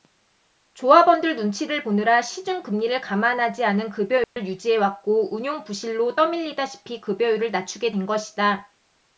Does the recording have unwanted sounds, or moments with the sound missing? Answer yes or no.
yes